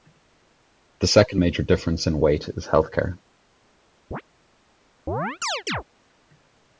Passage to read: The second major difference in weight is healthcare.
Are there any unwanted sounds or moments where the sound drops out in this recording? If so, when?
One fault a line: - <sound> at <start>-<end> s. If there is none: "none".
- chirp at 4.1-4.2 s
- chirp at 5.1-5.8 s